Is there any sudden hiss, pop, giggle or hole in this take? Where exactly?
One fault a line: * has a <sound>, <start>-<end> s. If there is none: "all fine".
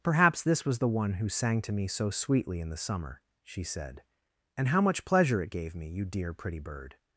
all fine